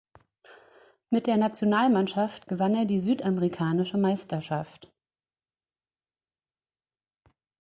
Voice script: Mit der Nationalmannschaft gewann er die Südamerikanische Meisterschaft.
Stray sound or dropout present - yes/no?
no